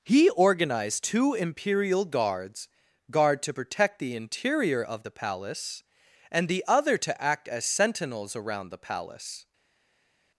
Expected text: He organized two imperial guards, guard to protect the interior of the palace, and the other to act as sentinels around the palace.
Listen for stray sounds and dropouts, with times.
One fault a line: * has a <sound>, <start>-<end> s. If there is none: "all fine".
all fine